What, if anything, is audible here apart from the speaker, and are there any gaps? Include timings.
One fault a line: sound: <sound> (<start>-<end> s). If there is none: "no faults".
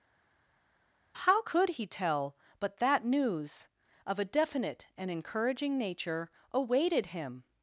no faults